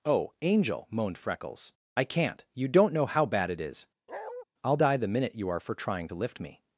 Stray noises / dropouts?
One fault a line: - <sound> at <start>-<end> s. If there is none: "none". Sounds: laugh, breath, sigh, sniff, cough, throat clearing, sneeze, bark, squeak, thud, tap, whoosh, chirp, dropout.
- bark at 4.1-4.4 s